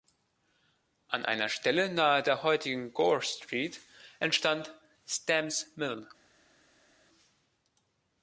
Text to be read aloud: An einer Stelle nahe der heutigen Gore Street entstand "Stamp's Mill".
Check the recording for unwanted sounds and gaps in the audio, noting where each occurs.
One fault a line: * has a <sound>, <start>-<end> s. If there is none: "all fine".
all fine